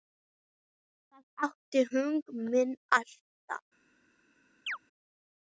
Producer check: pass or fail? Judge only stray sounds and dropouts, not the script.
fail